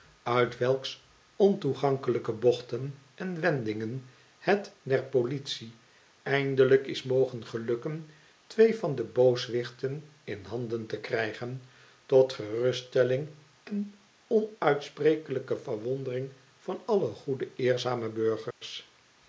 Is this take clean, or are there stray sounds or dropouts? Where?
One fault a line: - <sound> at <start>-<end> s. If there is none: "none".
- dropout at 18.5-18.6 s